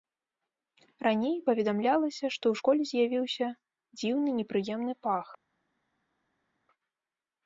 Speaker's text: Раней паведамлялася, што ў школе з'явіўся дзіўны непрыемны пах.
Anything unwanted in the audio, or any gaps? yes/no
no